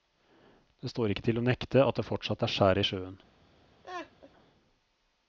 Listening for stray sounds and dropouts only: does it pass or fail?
fail